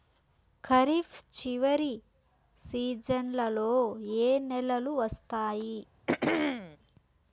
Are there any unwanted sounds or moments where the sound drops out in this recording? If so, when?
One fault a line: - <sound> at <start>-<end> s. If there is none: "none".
- throat clearing at 6.1-6.8 s